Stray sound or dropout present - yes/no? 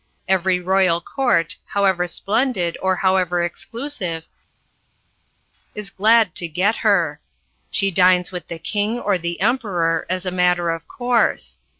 no